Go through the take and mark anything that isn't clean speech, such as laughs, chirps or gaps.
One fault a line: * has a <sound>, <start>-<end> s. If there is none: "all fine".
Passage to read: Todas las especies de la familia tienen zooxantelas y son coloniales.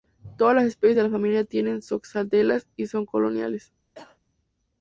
* has a cough, 3.9-4.2 s